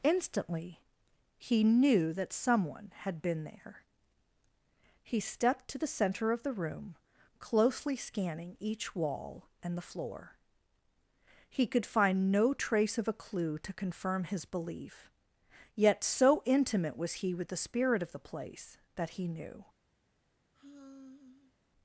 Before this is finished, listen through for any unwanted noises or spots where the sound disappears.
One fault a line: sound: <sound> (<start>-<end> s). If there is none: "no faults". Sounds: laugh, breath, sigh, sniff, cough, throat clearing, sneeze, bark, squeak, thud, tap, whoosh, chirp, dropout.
sound: sigh (20.5-21.5 s)